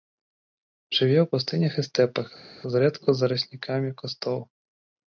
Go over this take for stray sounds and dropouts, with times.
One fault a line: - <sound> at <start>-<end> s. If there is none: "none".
none